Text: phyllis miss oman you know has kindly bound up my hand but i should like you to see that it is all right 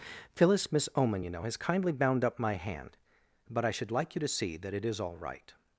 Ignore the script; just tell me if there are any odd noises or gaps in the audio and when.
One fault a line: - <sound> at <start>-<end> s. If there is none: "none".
none